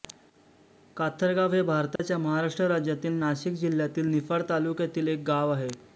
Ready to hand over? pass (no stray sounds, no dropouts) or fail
fail